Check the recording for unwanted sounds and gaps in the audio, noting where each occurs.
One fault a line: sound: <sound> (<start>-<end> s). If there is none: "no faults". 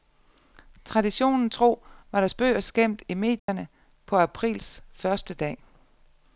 sound: dropout (3.4-3.5 s)